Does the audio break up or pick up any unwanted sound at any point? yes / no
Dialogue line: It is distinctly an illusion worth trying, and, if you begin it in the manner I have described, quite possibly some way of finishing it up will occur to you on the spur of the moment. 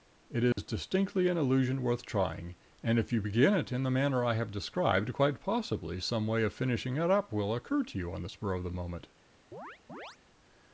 yes